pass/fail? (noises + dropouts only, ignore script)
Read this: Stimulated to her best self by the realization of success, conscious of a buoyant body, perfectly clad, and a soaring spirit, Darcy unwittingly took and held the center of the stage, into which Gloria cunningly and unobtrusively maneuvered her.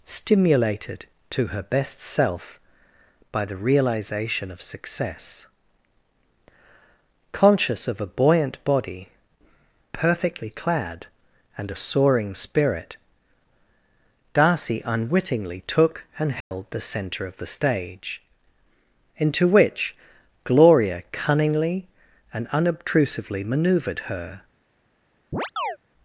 fail